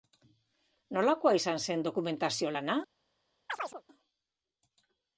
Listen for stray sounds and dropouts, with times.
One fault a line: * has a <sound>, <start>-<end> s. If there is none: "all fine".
* has a chirp, 3.5-3.8 s